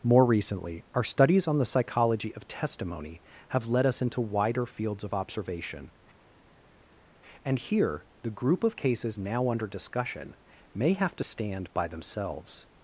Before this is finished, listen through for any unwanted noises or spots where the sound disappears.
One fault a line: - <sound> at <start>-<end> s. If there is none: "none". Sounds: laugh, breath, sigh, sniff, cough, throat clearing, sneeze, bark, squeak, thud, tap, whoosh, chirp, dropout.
none